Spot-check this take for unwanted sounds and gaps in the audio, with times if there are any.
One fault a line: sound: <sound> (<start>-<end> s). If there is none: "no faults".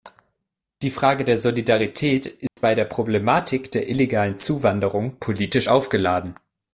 sound: dropout (2.5-2.6 s)